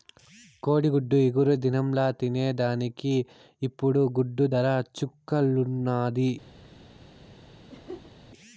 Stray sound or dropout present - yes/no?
yes